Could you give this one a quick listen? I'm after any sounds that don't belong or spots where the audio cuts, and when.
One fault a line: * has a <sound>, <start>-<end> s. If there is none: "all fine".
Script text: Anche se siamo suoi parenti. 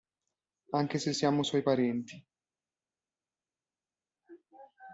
all fine